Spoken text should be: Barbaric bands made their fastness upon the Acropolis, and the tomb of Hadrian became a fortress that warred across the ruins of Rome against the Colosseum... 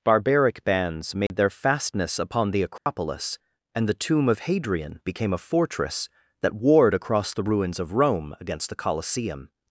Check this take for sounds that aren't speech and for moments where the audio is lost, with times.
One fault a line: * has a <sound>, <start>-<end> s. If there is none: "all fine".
* has a dropout, 1.3-1.3 s
* has a dropout, 2.8-2.9 s